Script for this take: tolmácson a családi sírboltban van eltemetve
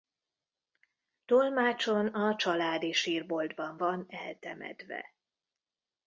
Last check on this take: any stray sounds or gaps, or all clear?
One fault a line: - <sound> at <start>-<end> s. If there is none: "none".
none